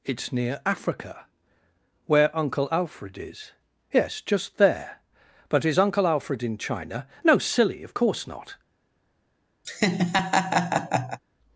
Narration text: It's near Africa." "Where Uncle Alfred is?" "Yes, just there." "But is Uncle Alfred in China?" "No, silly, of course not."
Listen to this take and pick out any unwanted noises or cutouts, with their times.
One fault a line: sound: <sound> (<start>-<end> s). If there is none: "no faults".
sound: laugh (9.6-11.2 s)